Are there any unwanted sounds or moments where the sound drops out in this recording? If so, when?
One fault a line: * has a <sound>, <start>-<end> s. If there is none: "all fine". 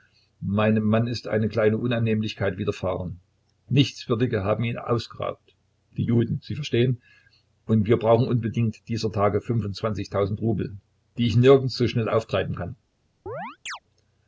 * has a chirp, 13.3-13.8 s